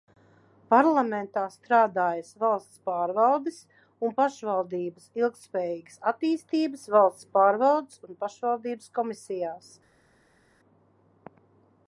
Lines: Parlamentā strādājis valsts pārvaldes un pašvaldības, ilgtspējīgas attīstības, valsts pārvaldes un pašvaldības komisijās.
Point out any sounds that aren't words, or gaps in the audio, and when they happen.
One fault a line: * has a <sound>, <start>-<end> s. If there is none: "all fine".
all fine